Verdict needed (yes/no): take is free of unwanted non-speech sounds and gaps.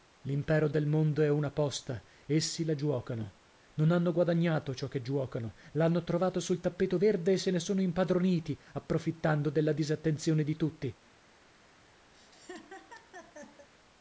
no